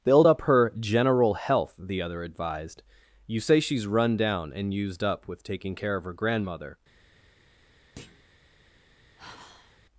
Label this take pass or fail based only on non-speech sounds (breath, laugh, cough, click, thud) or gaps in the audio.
fail